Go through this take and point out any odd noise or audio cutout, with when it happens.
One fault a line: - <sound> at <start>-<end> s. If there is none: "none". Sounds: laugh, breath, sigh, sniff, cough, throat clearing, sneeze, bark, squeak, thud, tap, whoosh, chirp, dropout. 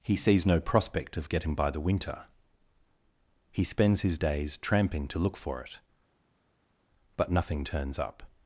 none